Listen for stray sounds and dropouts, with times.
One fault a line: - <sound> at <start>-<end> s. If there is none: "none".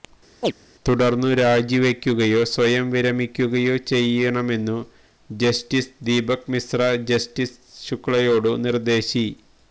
- chirp at 0.4-0.5 s